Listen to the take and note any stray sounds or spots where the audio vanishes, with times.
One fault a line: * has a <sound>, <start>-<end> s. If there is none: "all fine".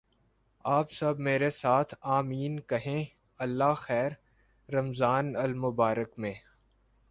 all fine